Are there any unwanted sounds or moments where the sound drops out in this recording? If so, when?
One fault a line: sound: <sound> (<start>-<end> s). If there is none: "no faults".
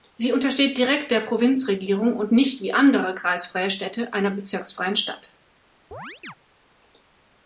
sound: chirp (5.9-6.4 s)